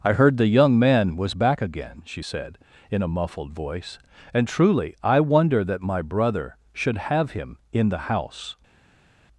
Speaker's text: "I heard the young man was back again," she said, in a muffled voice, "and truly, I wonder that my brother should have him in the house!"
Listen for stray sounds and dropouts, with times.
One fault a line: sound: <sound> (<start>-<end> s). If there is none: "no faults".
no faults